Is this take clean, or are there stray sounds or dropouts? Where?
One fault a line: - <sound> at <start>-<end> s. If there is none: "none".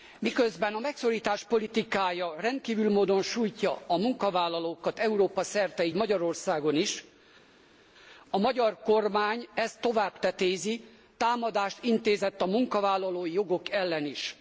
none